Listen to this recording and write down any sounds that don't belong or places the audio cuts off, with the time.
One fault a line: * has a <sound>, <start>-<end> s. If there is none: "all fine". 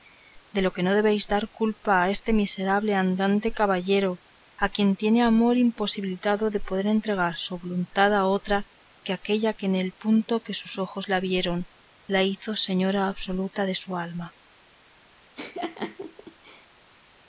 * has a laugh, 15.4-16.7 s